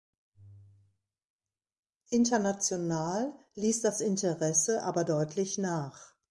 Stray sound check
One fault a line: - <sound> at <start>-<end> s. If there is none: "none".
none